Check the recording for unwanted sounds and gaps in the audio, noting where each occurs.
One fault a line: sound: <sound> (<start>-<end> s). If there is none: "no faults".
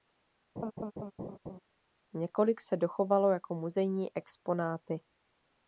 sound: laugh (0.6-1.6 s)